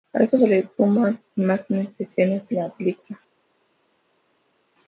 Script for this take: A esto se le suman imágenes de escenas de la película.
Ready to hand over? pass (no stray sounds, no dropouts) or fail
pass